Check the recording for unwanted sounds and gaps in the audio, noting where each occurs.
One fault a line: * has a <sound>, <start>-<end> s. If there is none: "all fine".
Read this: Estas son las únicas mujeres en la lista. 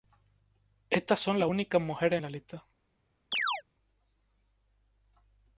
* has a chirp, 3.3-3.6 s